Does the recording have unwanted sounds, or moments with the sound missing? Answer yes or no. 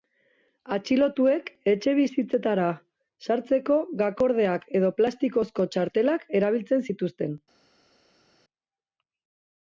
no